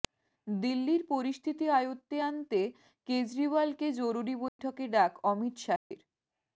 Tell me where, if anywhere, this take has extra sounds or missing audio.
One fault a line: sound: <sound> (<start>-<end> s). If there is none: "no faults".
sound: dropout (4.5-4.6 s)
sound: dropout (5.8-5.9 s)